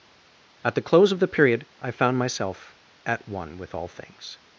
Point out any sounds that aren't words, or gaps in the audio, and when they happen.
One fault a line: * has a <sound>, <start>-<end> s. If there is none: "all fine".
all fine